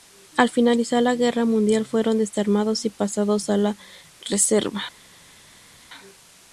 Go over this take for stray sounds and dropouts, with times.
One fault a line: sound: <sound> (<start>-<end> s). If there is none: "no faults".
no faults